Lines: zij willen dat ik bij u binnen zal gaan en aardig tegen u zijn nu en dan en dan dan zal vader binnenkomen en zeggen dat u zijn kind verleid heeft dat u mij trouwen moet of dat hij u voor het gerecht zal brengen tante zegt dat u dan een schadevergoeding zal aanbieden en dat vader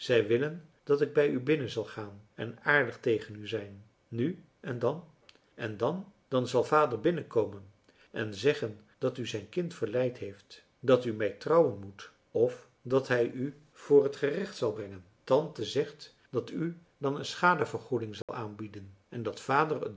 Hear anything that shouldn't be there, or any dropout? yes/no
yes